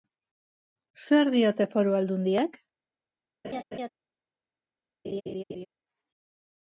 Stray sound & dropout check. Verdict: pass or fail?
fail